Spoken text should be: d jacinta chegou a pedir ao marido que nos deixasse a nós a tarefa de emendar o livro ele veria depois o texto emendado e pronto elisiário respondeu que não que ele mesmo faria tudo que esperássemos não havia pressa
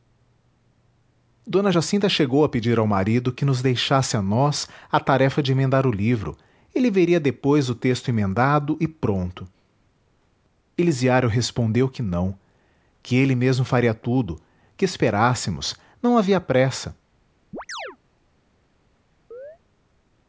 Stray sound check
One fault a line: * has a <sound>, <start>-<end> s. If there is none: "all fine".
* has a chirp, 17.5-18.0 s
* has a chirp, 19.3-19.6 s